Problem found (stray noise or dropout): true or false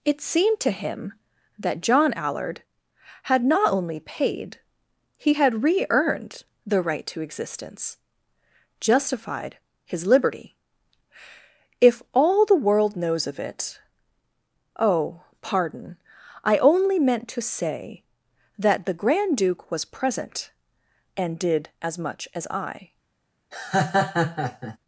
true